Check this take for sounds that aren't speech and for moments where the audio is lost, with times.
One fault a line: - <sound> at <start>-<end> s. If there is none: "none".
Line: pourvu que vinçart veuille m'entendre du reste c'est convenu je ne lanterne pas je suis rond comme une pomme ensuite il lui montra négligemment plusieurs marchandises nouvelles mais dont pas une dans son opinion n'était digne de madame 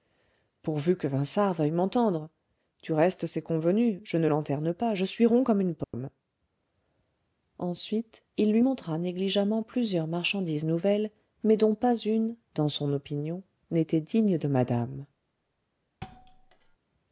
- dropout at 5.8-5.9 s
- thud at 16.0-16.8 s